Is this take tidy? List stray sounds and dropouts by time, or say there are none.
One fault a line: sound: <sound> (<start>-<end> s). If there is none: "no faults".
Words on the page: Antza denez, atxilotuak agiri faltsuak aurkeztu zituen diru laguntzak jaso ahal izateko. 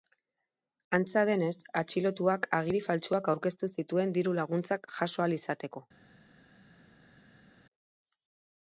no faults